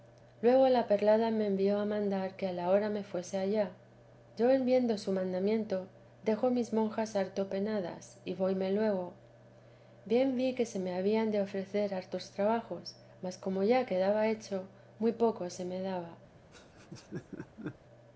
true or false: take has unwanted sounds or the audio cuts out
true